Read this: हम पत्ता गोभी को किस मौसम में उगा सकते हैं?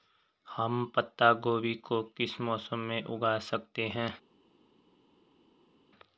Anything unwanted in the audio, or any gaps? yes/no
no